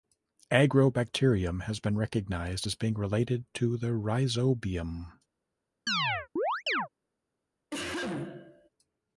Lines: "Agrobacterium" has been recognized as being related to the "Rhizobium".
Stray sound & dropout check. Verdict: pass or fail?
fail